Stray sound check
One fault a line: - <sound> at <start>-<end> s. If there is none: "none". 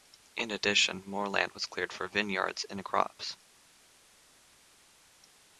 none